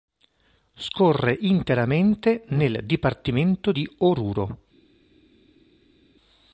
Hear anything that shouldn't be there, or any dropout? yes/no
no